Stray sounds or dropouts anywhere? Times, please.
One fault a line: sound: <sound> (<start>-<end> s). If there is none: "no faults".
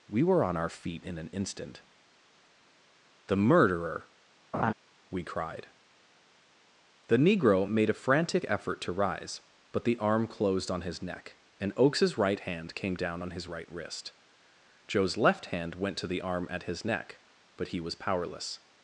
sound: laugh (4.5-4.7 s)